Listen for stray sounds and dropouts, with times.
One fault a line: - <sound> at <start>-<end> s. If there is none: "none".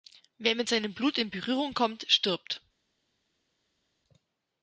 none